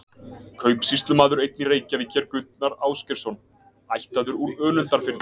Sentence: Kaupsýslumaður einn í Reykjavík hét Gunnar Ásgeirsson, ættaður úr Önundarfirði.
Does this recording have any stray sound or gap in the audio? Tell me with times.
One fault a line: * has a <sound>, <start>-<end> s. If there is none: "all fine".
all fine